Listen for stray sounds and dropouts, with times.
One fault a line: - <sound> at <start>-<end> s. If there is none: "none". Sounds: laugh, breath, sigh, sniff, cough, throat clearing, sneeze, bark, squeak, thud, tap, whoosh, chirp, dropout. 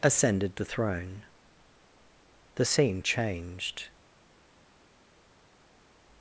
none